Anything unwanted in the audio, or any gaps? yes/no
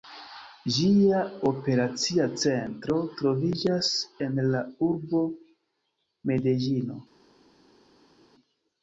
no